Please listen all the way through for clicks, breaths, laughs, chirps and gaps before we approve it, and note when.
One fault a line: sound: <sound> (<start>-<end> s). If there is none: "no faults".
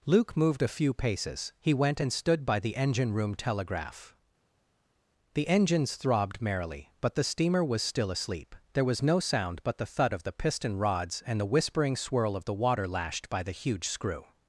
no faults